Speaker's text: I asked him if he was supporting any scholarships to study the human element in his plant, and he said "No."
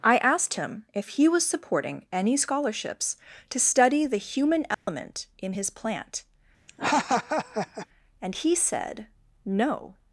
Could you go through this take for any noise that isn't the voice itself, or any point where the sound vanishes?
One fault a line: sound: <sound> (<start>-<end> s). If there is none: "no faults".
sound: dropout (4.7-4.9 s)
sound: laugh (6.7-7.9 s)